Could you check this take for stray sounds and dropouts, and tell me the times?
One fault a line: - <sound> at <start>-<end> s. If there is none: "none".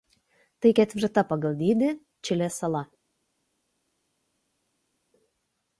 none